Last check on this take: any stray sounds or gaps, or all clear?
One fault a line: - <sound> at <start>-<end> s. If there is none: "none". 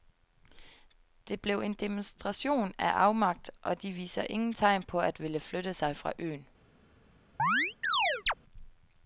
- chirp at 7.4-8.3 s